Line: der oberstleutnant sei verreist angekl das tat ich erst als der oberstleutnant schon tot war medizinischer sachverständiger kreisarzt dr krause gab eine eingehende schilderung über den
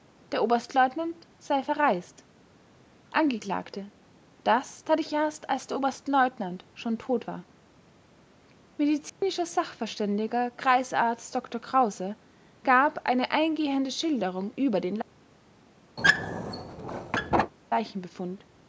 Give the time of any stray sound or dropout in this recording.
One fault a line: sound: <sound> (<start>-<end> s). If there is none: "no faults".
sound: dropout (9.1-9.2 s)
sound: squeak (16.0-17.5 s)